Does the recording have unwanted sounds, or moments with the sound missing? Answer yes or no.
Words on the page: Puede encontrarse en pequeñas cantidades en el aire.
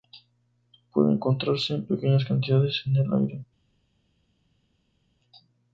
no